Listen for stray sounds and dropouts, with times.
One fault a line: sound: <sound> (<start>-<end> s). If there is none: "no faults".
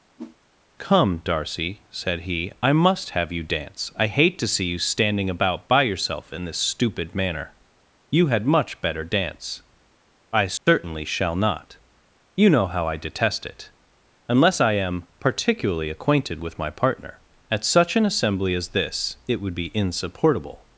sound: whoosh (0.2-0.4 s)
sound: dropout (10.6-10.7 s)